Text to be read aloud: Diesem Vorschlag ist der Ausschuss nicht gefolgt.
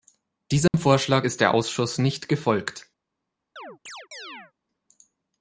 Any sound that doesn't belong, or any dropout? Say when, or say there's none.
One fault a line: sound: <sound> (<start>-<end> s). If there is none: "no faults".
sound: dropout (0.7-0.7 s)
sound: chirp (3.6-4.5 s)